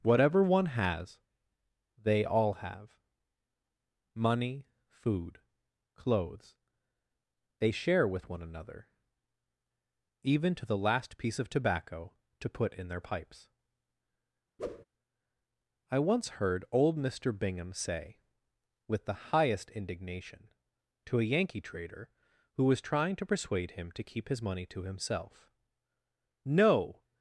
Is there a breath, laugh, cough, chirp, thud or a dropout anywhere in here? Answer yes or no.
yes